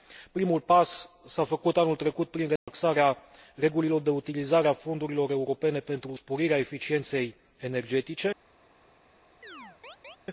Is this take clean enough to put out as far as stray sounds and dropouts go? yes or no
no